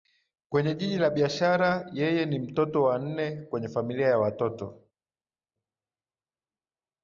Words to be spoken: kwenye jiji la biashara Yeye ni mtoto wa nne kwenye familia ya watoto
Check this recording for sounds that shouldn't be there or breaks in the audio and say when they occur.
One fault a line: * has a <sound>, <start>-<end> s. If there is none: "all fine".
all fine